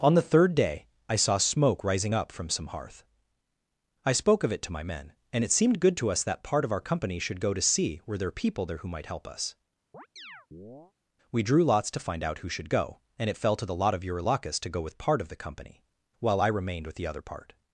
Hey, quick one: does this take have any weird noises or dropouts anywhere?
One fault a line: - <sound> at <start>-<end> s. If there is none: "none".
- chirp at 9.9-10.9 s